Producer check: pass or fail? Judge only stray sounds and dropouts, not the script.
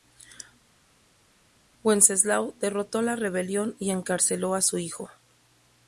pass